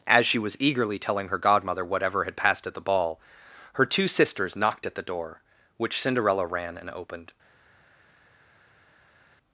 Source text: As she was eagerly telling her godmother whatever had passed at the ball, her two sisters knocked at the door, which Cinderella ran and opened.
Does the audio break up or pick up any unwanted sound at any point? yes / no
no